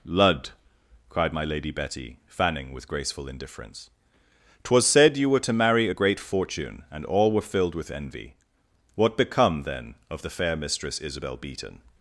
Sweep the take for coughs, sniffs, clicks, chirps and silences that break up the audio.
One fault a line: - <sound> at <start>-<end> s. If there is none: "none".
none